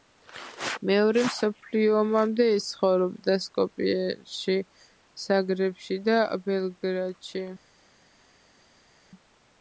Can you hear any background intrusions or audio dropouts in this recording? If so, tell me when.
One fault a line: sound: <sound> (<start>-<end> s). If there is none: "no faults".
no faults